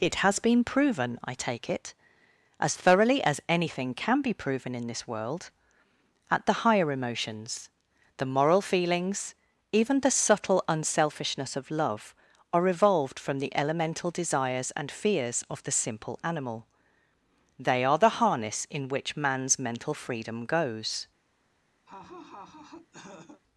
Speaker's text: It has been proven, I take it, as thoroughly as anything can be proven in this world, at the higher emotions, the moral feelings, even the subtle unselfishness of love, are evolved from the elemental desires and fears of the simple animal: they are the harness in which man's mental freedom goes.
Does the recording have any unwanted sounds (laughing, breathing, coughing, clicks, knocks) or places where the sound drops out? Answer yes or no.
yes